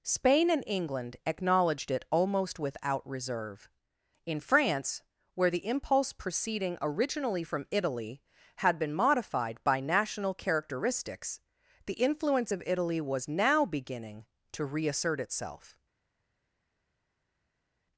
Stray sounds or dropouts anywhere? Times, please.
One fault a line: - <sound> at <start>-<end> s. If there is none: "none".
none